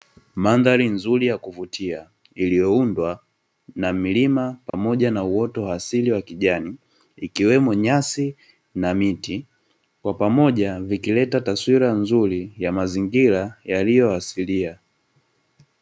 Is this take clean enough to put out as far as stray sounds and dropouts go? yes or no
no